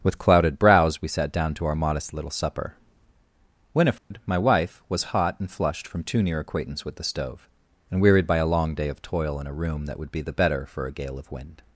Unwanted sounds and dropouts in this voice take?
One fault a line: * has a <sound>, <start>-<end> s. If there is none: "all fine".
* has a dropout, 4.0-4.1 s